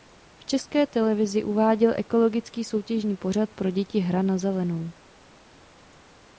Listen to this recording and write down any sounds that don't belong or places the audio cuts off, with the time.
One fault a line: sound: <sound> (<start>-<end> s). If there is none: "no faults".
no faults